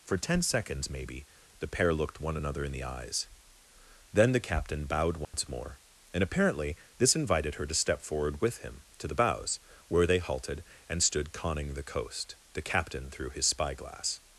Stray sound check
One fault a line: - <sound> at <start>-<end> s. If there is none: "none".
- dropout at 5.2-5.3 s